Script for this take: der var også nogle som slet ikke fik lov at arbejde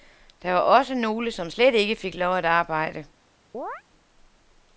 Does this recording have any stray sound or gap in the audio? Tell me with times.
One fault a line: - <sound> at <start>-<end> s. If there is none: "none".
- chirp at 3.5-3.8 s